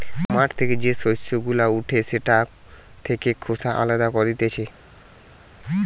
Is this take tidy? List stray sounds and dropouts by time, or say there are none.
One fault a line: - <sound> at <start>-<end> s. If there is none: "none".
none